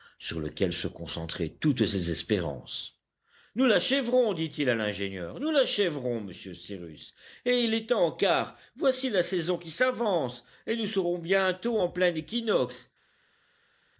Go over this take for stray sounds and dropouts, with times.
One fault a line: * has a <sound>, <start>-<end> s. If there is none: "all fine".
all fine